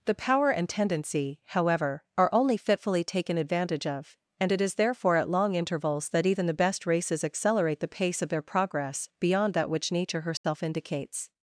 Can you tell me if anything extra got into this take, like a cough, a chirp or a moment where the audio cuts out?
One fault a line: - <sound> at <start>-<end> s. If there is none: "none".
- dropout at 10.4-10.4 s